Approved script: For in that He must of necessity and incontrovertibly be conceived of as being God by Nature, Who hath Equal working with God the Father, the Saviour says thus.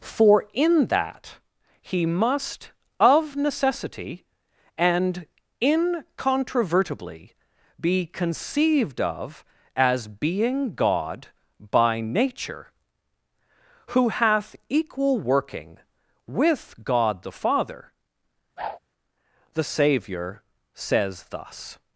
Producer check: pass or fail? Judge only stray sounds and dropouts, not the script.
fail